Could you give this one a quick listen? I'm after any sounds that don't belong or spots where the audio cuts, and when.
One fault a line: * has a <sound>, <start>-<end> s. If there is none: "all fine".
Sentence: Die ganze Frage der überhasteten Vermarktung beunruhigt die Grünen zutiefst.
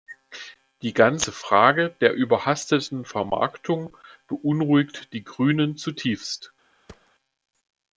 * has a thud, 6.9-7.1 s